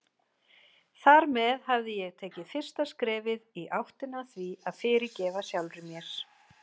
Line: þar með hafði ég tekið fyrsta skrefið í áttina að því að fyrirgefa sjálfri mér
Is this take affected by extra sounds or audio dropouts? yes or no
no